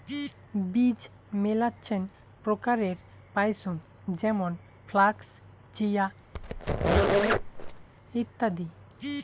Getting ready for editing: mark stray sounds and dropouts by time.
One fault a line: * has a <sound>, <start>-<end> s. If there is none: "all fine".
* has a squeak, 6.3-7.9 s